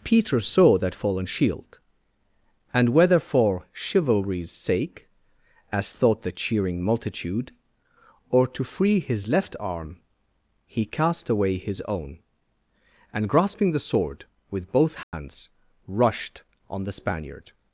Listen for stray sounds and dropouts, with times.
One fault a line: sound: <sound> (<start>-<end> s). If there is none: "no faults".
sound: dropout (15.0-15.1 s)